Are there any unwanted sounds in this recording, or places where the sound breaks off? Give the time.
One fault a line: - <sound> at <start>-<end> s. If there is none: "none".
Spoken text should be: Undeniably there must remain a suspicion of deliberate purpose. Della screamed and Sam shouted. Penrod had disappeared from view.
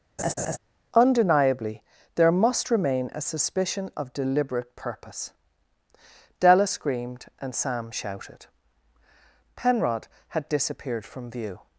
- laugh at 0.2-0.6 s